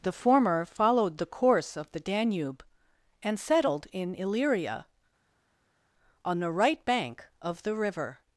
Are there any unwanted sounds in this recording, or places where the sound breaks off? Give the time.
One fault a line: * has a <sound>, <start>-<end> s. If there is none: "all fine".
all fine